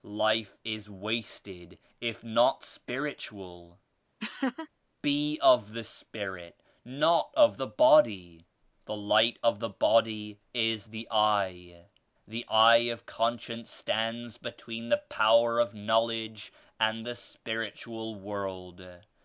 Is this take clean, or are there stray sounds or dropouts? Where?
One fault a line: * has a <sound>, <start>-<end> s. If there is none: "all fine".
* has a laugh, 4.2-4.7 s